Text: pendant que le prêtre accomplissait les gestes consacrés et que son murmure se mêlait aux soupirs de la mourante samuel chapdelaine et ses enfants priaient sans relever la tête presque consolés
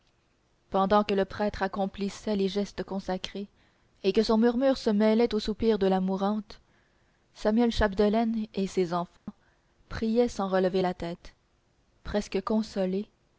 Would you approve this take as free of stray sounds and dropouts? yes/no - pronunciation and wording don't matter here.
no